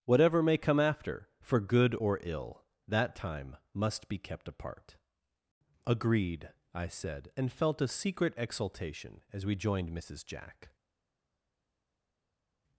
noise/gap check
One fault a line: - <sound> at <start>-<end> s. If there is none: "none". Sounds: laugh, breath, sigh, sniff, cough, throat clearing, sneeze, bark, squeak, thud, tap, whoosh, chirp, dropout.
none